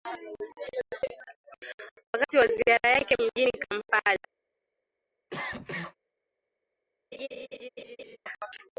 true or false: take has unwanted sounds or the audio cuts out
true